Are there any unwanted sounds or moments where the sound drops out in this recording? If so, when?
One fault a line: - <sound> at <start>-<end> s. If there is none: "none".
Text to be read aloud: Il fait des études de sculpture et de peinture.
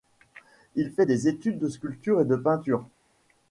none